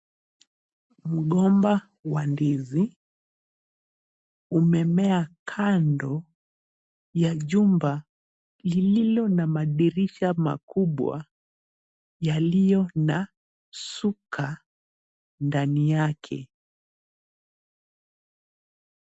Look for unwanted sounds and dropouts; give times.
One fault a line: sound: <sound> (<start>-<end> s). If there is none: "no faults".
no faults